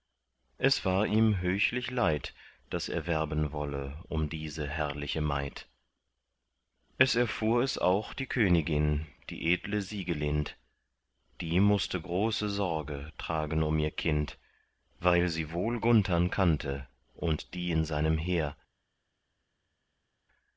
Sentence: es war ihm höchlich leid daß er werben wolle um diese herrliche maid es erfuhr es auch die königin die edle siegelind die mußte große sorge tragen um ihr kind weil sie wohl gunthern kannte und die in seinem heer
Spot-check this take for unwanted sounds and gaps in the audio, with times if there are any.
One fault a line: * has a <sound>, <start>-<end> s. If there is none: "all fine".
all fine